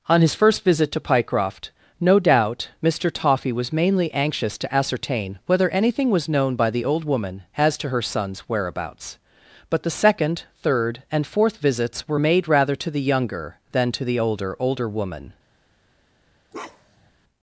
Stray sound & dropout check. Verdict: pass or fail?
fail